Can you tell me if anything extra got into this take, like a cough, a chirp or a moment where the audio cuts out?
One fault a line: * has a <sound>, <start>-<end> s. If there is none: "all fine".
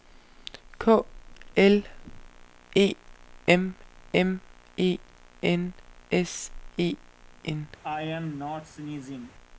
* has a sneeze, 7.8-9.3 s